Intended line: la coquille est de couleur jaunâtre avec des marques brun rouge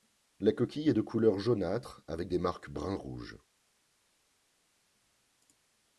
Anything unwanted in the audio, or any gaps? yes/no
no